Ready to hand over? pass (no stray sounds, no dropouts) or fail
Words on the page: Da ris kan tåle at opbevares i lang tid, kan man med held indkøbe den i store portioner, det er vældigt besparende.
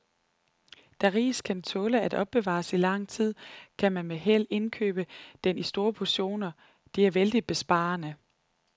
pass